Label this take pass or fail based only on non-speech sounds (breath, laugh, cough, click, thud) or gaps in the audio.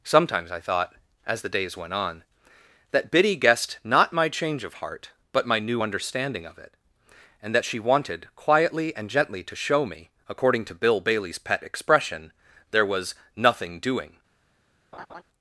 fail